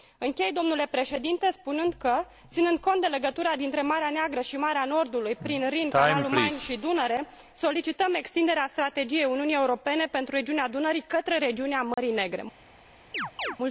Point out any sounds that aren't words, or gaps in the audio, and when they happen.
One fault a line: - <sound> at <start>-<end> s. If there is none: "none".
- dropout at 11.9-12.0 s
- chirp at 13.1-13.6 s